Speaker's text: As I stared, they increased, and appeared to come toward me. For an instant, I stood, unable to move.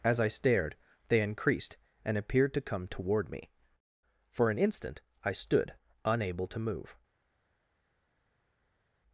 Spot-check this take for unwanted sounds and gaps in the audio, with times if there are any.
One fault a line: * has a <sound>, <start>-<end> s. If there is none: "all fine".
all fine